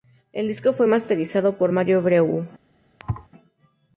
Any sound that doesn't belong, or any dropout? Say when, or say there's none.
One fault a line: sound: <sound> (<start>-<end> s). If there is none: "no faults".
sound: thud (3.0-3.3 s)